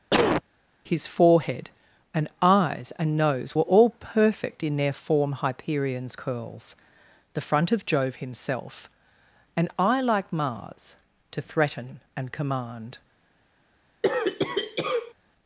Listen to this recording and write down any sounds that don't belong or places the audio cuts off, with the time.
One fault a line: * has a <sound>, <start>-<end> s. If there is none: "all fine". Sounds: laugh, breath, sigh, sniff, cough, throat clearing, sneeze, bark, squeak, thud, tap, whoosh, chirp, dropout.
* has a cough, 0.1-0.4 s
* has a cough, 14.0-15.1 s